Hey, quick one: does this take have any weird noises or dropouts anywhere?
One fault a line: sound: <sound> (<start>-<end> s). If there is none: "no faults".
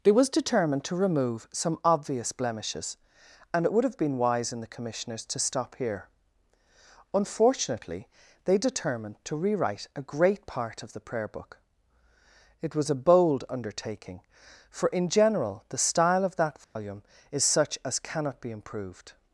sound: dropout (16.6-16.8 s)